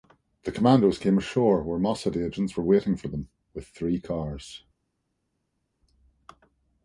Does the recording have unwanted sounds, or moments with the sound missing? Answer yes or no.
no